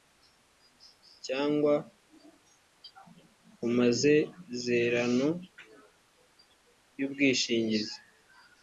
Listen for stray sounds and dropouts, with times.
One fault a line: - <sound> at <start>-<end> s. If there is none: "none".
none